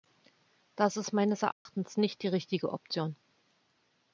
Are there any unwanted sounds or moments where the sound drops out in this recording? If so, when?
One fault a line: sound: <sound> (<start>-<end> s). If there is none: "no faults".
sound: dropout (1.5-1.7 s)